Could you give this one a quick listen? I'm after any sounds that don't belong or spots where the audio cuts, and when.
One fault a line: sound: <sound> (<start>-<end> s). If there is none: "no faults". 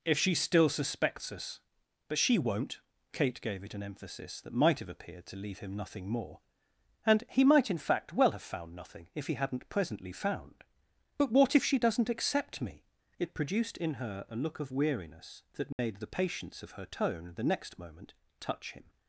sound: dropout (15.7-15.8 s)